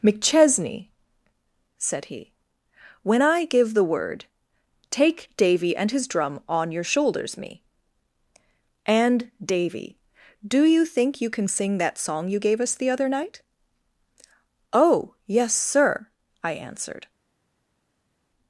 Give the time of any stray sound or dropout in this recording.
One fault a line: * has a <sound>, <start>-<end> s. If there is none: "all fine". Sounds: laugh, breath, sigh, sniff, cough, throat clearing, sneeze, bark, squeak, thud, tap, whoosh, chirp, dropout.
all fine